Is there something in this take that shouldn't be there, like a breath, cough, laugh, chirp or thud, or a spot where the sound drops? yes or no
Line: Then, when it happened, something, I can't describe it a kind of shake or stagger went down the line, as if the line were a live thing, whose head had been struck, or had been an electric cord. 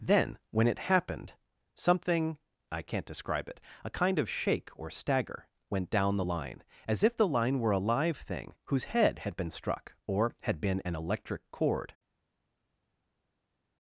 no